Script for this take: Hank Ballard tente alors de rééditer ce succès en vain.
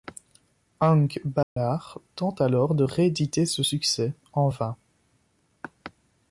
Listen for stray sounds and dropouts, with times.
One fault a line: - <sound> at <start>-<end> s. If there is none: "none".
- dropout at 1.4-1.6 s